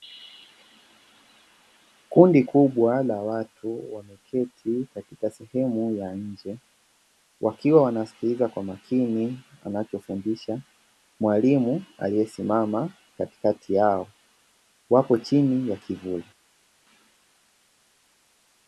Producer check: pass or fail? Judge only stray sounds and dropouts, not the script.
pass